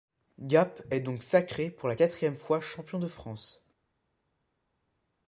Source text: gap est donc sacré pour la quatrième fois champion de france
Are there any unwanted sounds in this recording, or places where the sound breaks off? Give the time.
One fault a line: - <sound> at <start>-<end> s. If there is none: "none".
none